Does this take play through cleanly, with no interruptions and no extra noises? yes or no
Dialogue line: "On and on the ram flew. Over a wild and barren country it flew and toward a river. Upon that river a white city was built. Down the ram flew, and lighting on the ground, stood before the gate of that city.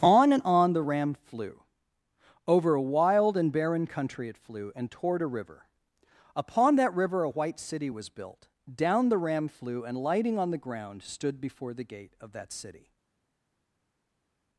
yes